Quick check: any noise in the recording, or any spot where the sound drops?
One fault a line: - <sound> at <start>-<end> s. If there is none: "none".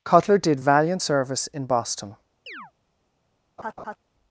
- chirp at 2.5-2.7 s
- laugh at 3.6-4.0 s